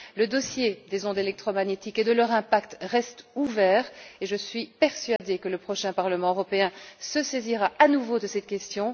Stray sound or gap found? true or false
true